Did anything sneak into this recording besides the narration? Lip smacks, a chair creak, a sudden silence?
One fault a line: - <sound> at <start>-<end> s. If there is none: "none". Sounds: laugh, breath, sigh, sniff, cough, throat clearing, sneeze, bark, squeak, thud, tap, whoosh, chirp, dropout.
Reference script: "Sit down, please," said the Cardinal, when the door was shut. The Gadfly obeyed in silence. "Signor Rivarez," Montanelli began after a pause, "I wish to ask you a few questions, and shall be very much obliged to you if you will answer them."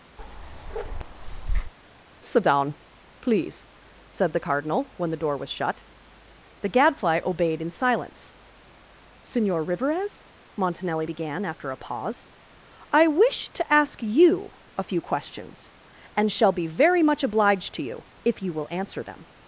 - bark at 0.2-1.7 s